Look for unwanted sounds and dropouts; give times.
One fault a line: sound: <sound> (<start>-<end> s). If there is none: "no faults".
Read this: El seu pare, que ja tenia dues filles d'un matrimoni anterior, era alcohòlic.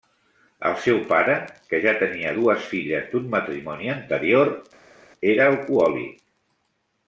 no faults